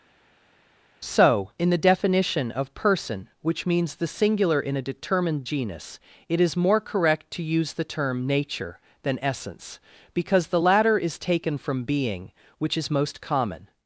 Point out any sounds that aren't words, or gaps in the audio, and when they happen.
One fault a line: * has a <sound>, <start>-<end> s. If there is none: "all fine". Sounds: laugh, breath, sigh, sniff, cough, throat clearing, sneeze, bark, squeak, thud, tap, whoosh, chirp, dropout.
all fine